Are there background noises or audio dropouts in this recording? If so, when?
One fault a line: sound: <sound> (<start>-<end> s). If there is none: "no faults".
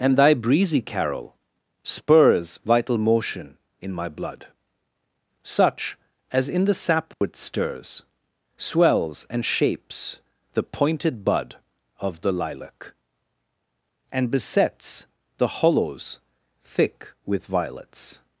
sound: dropout (7.1-7.2 s)